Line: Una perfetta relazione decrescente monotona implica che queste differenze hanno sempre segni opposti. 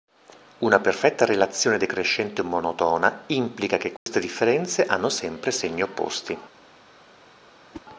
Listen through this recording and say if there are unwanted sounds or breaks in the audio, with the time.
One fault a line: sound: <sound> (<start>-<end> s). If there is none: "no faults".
sound: dropout (4.0-4.1 s)
sound: whoosh (7.7-7.9 s)